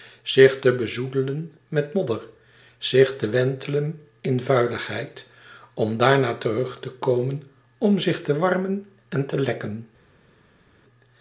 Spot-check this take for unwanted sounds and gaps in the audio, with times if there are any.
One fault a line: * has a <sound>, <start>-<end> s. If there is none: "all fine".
all fine